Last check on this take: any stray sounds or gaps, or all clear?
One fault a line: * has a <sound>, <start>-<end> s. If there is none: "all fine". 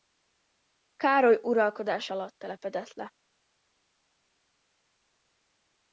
all fine